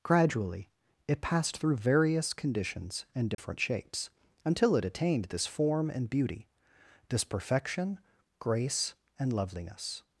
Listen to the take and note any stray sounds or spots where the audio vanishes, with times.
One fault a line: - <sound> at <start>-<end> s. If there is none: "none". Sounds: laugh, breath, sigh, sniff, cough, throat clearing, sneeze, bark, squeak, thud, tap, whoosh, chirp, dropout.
- dropout at 3.3-3.4 s